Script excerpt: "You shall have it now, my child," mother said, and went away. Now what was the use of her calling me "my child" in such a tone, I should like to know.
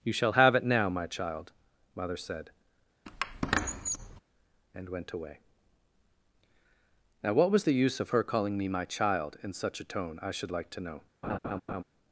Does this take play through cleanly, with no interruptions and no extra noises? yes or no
no